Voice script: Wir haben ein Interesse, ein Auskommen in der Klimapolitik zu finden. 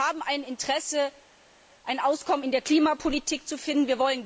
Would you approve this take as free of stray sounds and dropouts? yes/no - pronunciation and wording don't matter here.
yes